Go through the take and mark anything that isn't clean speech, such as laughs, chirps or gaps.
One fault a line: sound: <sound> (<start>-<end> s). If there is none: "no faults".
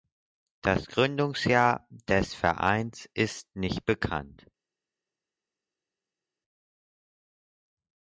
no faults